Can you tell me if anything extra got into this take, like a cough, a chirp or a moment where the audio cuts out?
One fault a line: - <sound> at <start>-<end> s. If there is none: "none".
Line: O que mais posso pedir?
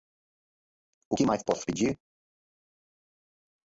none